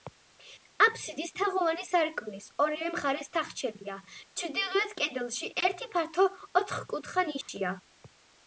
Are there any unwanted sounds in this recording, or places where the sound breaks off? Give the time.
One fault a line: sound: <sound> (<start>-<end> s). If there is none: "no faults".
sound: dropout (7.4-7.5 s)